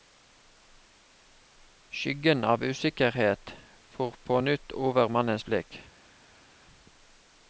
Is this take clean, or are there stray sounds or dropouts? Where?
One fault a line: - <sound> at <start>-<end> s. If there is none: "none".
none